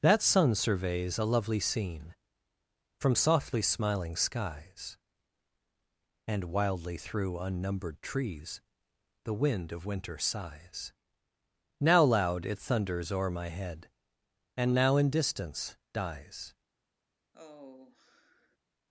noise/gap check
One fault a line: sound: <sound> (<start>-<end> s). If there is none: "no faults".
sound: sigh (17.3-18.6 s)